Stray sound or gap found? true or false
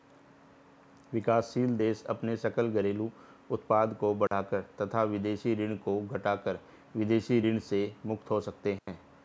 true